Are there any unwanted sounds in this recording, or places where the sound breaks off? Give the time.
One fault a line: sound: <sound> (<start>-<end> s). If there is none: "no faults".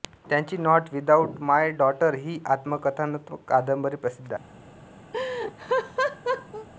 sound: laugh (5.1-6.7 s)